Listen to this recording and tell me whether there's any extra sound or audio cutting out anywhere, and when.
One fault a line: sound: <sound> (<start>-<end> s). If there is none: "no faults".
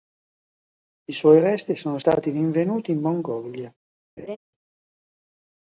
sound: laugh (4.2-4.4 s)